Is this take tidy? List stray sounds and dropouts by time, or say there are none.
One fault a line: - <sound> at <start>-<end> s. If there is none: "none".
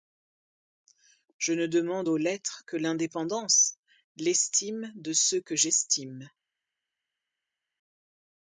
none